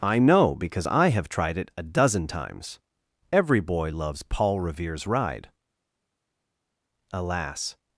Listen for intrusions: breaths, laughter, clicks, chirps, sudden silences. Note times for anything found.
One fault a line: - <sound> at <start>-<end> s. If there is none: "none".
none